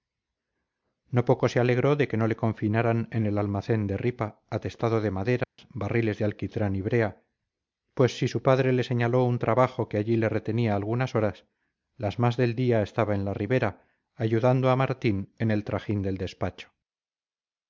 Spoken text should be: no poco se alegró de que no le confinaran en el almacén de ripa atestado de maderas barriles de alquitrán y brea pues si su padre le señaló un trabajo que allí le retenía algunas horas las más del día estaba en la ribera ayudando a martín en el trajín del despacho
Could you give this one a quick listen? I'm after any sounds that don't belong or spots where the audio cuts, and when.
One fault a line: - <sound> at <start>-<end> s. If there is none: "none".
- dropout at 5.4-5.6 s